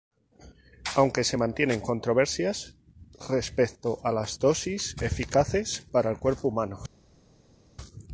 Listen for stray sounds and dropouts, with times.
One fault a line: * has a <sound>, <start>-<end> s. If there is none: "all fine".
all fine